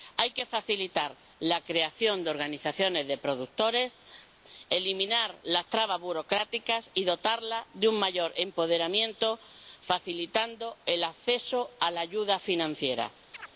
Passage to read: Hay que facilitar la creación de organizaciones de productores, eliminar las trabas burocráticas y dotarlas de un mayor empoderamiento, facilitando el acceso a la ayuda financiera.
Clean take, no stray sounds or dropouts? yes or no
no